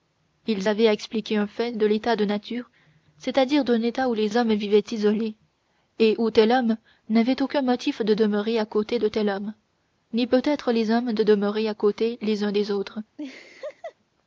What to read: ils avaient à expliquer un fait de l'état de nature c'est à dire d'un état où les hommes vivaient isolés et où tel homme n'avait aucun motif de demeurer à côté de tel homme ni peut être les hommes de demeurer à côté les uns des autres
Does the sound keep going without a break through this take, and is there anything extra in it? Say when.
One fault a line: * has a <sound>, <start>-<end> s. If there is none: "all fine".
* has a laugh, 13.2-13.9 s